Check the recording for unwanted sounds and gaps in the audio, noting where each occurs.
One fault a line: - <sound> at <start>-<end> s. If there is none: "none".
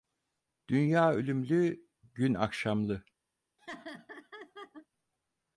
- laugh at 3.6-4.9 s